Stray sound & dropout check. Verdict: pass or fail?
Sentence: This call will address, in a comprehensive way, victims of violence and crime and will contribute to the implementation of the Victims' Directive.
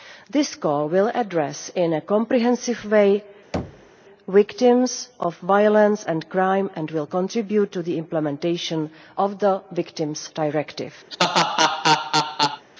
fail